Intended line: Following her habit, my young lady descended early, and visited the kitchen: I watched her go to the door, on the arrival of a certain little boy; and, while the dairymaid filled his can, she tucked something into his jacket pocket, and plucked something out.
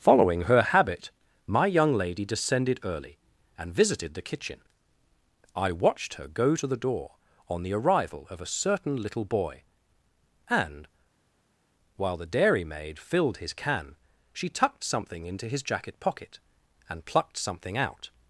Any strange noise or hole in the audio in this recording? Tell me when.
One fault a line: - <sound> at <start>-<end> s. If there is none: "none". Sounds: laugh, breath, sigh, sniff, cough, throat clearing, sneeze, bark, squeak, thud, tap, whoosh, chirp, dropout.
none